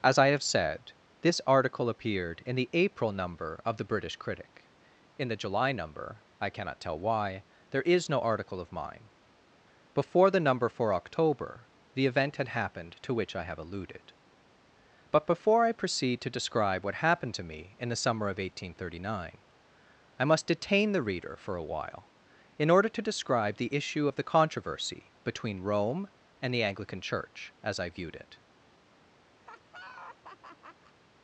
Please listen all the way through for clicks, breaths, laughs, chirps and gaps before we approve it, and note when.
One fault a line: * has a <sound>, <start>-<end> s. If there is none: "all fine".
* has a laugh, 29.4-30.9 s